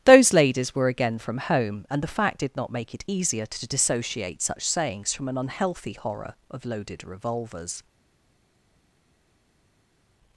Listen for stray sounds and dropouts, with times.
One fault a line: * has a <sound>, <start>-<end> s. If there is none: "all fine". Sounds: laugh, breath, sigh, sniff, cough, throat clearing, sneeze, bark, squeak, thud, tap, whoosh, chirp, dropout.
all fine